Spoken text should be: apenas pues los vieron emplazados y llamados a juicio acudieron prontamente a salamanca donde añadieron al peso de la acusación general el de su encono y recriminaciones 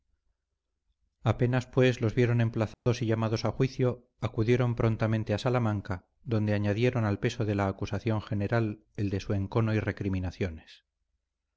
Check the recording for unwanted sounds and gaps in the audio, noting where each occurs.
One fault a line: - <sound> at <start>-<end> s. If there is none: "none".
- dropout at 2.7-2.9 s